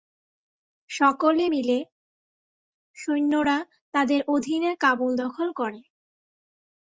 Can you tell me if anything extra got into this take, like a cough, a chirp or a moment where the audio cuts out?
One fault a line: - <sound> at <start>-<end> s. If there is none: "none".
none